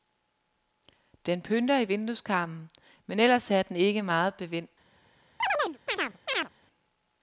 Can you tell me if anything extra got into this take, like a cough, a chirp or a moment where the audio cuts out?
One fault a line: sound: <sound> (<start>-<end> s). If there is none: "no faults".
sound: chirp (5.4-6.5 s)